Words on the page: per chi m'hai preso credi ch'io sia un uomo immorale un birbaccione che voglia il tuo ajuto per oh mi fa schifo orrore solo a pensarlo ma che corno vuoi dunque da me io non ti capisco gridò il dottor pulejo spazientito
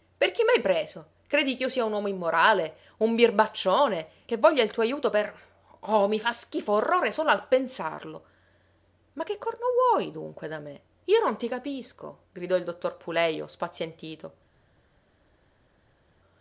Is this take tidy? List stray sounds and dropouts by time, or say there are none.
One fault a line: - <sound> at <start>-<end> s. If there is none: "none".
none